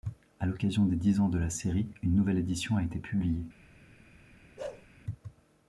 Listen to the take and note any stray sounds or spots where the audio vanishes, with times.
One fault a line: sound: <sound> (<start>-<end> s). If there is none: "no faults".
sound: bark (4.6-4.9 s)